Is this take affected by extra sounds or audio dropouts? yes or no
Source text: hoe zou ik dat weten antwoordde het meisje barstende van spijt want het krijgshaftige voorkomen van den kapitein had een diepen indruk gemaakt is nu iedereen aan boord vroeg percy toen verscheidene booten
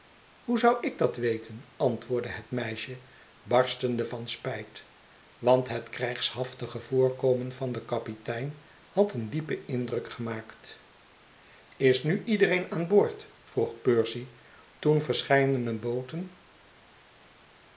no